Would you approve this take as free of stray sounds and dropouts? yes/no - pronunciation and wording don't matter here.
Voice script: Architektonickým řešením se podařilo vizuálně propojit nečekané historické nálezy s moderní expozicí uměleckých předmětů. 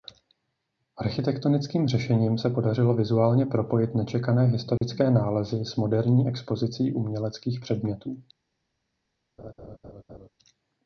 no